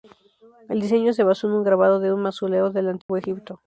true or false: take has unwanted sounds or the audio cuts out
true